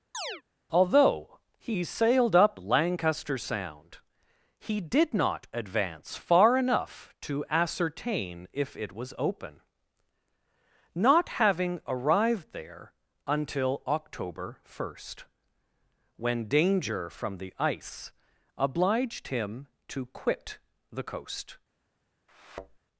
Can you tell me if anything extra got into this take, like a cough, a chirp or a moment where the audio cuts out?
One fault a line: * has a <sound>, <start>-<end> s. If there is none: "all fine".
* has a chirp, 0.1-0.4 s
* has a thud, 22.3-22.8 s